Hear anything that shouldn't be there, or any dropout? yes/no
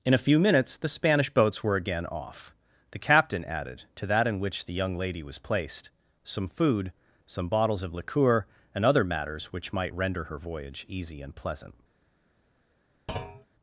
yes